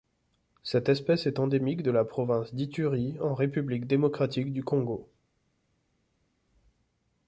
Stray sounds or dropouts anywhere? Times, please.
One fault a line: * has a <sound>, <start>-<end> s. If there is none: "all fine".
all fine